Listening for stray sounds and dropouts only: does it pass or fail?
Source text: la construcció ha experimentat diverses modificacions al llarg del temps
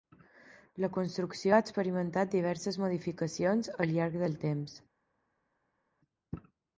pass